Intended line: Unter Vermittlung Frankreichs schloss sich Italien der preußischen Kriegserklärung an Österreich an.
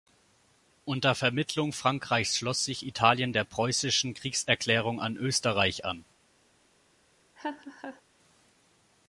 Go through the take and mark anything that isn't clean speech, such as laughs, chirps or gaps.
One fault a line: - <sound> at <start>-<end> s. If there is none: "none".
- laugh at 7.4-8.0 s